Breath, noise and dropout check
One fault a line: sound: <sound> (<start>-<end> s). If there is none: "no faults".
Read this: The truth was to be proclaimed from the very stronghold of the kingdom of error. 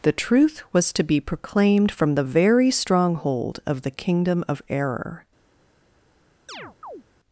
sound: chirp (6.5-7.0 s)